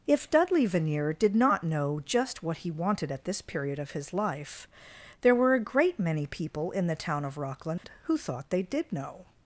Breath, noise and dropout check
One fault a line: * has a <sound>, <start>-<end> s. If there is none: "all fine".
* has a dropout, 7.8-7.8 s